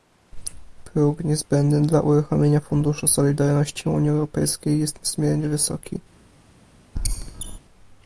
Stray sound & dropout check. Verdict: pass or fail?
fail